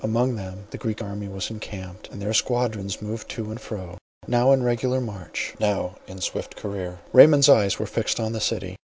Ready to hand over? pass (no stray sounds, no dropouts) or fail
pass